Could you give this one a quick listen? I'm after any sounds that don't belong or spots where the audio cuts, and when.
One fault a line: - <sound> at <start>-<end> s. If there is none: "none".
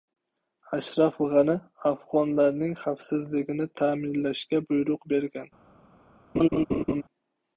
- laugh at 6.3-7.0 s